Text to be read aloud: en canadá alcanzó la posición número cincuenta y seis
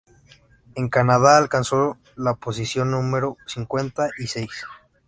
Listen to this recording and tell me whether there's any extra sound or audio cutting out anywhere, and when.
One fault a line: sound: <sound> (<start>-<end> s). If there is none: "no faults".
no faults